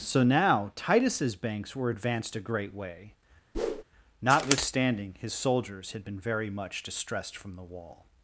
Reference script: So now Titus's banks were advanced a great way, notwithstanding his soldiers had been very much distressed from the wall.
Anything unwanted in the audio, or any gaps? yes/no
yes